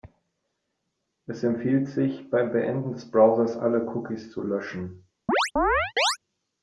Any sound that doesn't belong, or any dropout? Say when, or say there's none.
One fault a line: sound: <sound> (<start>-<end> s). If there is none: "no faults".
sound: chirp (5.3-6.2 s)